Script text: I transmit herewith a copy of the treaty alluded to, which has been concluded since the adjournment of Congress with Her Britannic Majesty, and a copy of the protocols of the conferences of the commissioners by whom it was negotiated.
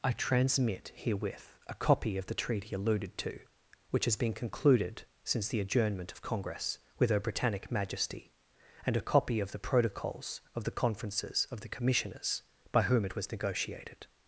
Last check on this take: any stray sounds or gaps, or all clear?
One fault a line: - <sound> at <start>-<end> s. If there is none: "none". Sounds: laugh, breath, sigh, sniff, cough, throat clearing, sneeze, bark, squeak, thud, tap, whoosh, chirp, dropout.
none